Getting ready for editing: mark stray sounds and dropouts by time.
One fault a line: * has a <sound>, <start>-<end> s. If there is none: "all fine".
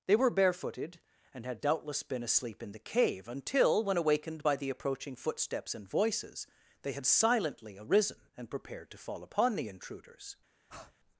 * has a breath, 10.7-10.9 s